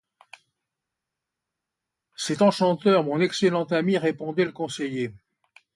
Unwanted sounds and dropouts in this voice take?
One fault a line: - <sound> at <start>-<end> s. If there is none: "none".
none